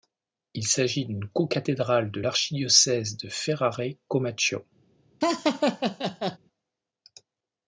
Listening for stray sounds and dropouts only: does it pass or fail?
fail